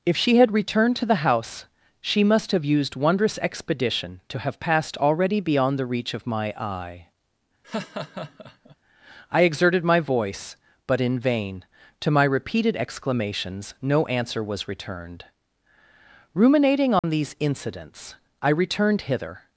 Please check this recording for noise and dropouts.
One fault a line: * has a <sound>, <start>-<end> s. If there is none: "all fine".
* has a laugh, 7.6-8.8 s
* has a dropout, 17.0-17.0 s